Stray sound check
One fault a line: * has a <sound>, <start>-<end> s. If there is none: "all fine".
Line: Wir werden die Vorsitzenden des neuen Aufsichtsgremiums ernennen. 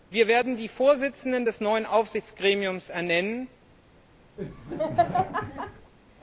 * has a laugh, 4.4-5.9 s